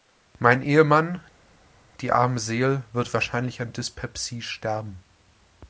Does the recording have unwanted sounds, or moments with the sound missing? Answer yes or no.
no